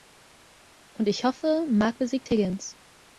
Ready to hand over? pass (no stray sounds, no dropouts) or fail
pass